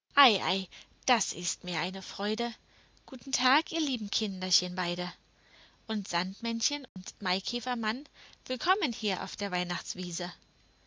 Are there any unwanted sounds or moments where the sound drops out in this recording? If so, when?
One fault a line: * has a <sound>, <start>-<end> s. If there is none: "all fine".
* has a dropout, 6.9-7.0 s